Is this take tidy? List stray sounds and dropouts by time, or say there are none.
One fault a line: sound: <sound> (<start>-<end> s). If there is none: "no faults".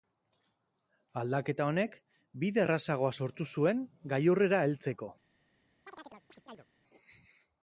sound: chirp (5.9-6.7 s)